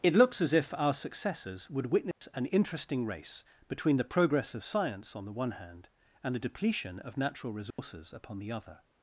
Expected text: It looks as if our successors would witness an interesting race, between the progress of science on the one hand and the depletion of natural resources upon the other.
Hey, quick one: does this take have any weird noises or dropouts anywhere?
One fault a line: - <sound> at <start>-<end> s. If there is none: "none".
- dropout at 2.1-2.2 s
- dropout at 7.7-7.8 s